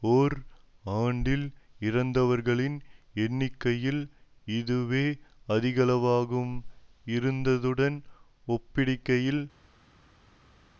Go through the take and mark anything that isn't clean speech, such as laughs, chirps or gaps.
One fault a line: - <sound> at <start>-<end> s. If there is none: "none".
none